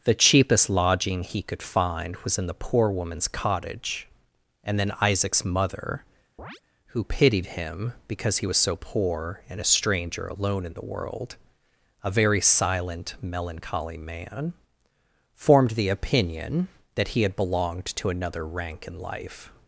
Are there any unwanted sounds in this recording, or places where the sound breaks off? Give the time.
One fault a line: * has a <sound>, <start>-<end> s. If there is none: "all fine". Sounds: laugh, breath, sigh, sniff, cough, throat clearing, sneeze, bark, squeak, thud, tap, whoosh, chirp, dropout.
* has a chirp, 6.4-6.6 s